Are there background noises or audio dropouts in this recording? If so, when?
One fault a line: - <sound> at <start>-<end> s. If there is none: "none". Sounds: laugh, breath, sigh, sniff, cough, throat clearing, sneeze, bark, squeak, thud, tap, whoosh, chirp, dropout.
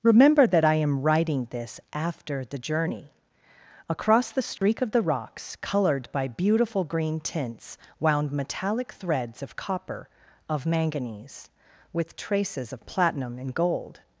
- dropout at 4.6-4.6 s